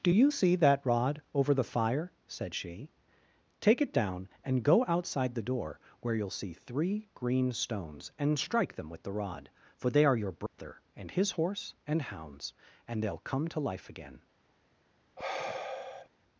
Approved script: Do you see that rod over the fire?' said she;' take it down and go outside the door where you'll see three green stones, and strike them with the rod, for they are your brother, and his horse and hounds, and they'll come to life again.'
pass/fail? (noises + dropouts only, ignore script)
fail